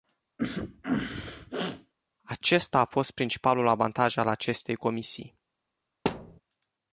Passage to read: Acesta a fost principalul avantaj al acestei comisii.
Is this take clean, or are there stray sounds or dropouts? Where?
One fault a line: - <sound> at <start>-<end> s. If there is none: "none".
- sneeze at 0.4-1.9 s
- thud at 6.1-6.4 s